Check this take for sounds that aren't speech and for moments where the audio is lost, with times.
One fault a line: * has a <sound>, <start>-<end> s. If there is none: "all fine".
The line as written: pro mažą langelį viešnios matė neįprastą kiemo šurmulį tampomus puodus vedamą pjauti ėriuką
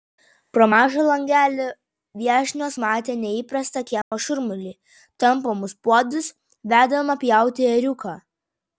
* has a dropout, 4.0-4.1 s